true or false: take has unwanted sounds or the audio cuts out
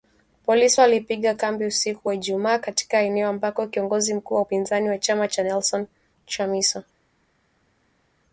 false